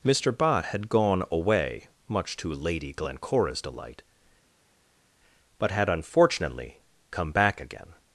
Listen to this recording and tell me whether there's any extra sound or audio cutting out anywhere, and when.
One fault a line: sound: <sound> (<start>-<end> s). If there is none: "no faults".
no faults